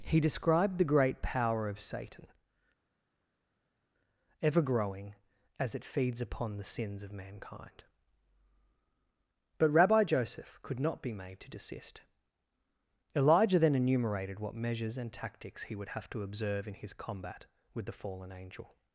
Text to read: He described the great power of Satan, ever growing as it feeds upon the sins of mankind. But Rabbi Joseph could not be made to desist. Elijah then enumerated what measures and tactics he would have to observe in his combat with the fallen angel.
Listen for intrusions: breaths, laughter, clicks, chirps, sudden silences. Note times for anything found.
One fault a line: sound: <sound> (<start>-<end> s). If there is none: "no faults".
no faults